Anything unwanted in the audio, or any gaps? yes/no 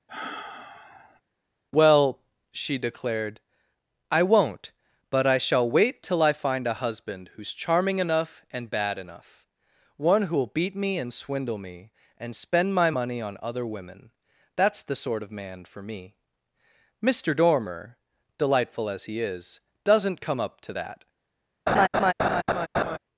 yes